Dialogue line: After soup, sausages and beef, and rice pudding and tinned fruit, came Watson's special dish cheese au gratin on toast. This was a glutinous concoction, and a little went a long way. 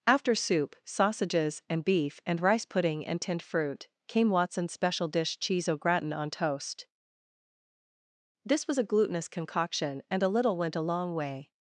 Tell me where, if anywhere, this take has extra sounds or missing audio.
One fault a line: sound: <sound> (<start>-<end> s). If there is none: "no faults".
no faults